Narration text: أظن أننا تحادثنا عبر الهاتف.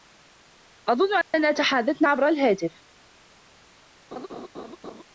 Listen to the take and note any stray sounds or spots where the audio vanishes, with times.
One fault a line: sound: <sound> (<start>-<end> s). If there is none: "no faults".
sound: dropout (1.2-1.3 s)
sound: laugh (4.1-5.0 s)